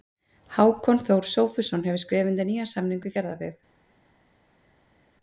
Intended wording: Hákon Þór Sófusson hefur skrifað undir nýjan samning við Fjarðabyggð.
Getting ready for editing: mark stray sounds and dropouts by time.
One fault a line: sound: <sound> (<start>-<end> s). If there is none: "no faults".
no faults